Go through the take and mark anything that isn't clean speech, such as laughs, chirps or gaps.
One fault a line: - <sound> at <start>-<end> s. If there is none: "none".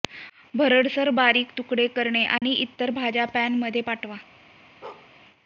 - dropout at 2.4-2.4 s
- bark at 4.8-5.1 s